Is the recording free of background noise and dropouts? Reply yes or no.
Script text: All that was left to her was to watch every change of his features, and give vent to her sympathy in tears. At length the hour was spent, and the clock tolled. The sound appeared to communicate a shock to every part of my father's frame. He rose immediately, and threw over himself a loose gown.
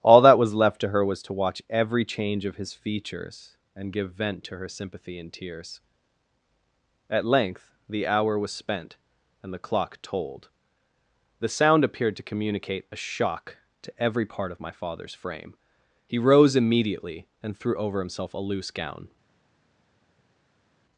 yes